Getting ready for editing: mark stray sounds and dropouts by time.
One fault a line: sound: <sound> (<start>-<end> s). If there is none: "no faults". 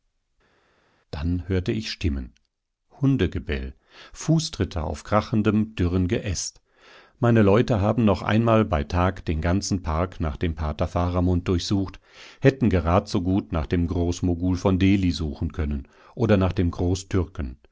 no faults